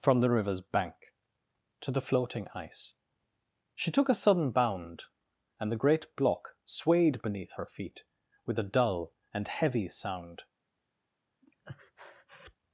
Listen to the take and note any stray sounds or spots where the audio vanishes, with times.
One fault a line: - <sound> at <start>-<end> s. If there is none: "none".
- breath at 11.4-12.6 s